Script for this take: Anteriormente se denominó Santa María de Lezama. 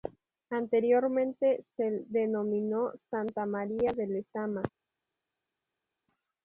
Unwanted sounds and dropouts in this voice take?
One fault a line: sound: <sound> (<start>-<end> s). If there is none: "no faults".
no faults